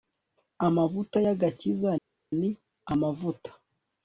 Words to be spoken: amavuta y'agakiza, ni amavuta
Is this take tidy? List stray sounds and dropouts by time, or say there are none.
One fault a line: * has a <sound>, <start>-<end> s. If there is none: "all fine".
all fine